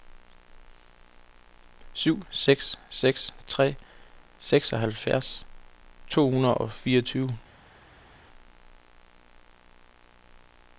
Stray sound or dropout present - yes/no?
no